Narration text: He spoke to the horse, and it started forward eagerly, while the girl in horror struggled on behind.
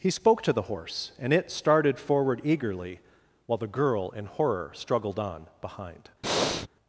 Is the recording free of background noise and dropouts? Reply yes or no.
no